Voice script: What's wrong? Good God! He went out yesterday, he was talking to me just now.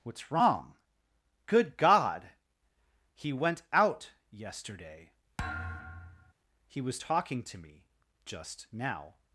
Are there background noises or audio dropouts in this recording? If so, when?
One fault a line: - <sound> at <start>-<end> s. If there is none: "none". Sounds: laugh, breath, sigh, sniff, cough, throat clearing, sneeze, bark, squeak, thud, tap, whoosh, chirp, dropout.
- thud at 5.4-6.3 s